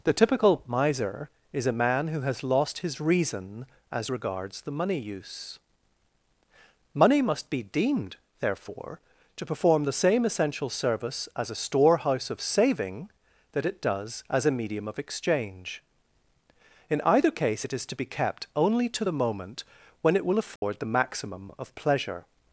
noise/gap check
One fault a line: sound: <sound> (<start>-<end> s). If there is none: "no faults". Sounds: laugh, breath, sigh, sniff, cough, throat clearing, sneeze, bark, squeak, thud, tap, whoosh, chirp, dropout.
sound: dropout (20.6-20.6 s)